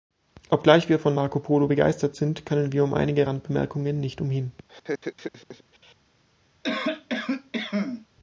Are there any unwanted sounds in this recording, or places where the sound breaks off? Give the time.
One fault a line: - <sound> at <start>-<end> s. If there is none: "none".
- laugh at 4.7-6.0 s
- cough at 6.6-8.1 s